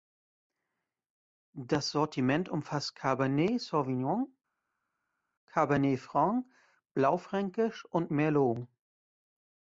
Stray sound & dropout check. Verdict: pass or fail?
pass